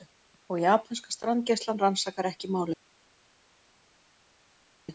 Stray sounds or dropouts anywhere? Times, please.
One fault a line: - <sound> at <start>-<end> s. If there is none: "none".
none